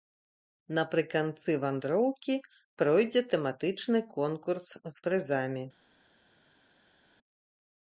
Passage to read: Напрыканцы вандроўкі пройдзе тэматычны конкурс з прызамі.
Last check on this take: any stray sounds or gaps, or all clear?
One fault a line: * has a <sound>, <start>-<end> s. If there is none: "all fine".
all fine